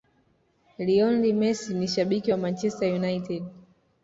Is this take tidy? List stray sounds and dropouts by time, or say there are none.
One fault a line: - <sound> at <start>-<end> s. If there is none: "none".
none